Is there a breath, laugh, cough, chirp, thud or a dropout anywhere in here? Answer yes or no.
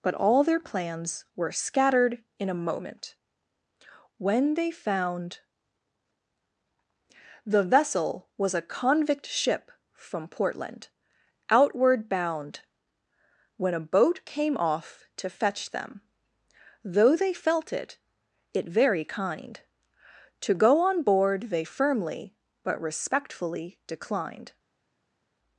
no